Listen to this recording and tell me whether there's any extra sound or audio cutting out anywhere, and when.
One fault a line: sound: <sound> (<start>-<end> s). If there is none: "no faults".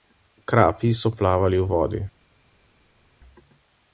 no faults